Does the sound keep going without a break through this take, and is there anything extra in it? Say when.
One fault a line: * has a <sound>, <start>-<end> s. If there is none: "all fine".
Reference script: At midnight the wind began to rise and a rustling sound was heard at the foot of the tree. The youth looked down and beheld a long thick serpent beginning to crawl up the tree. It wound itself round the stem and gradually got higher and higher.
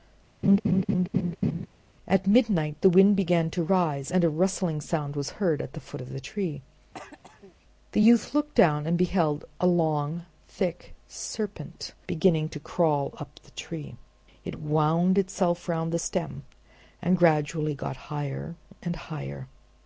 * has a laugh, 0.4-1.7 s
* has a throat clearing, 6.9-7.5 s